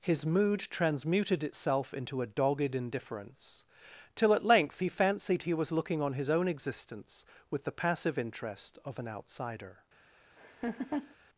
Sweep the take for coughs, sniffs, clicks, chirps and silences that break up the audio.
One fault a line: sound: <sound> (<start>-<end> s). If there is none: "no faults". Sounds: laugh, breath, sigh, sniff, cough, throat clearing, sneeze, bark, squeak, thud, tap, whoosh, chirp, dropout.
sound: laugh (10.4-11.2 s)